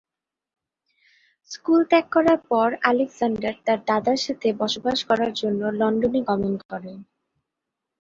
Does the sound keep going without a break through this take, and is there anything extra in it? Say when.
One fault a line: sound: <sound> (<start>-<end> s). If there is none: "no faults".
no faults